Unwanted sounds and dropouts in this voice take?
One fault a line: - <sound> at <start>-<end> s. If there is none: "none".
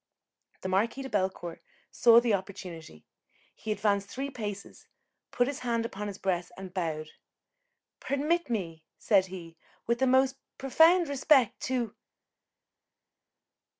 none